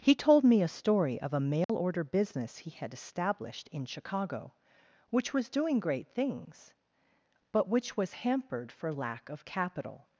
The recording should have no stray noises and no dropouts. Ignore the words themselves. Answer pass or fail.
fail